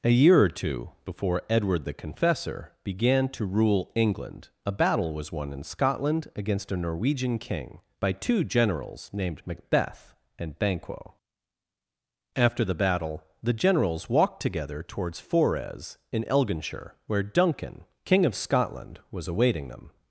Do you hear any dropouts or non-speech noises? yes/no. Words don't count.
no